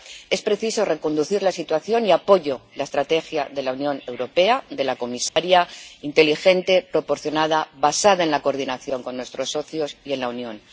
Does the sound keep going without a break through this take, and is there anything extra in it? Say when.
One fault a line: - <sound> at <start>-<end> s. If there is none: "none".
- dropout at 5.3-5.4 s